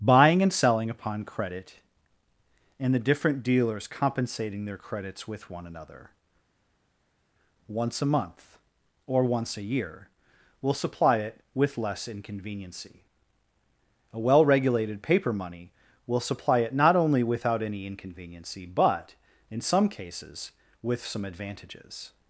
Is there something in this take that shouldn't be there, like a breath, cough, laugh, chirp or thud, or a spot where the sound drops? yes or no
no